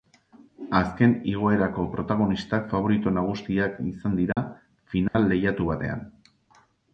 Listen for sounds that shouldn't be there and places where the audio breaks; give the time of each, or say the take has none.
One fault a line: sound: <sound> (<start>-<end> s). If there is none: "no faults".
sound: dropout (4.3-4.4 s)
sound: dropout (5.1-5.1 s)